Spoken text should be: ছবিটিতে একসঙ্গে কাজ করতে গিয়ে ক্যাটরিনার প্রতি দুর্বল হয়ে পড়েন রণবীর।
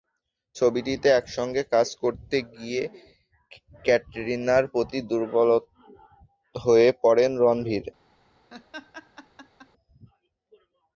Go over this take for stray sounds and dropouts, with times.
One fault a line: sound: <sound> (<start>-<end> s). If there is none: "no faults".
sound: laugh (8.5-9.7 s)